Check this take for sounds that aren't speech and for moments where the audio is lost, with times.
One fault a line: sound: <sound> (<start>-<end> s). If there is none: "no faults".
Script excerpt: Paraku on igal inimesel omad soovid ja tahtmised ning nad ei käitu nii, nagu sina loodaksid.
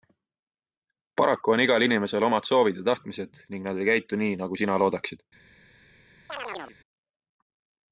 sound: chirp (6.3-6.8 s)